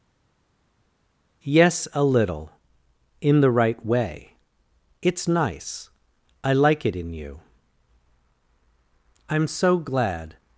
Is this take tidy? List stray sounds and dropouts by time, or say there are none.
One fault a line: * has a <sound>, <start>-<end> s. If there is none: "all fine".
all fine